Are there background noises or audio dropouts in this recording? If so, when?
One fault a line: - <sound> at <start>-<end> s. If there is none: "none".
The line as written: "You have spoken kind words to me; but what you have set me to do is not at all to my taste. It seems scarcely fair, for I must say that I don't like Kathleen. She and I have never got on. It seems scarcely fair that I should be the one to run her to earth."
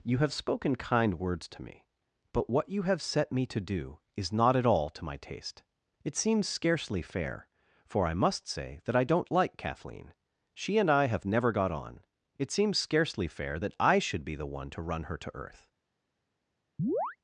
- chirp at 16.8-17.2 s